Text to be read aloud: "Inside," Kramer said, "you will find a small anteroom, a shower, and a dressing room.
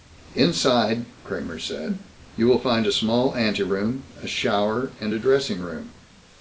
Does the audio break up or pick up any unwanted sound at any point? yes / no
no